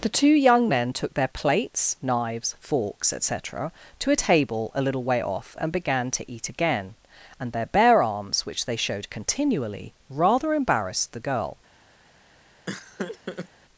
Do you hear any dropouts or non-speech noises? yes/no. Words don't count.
yes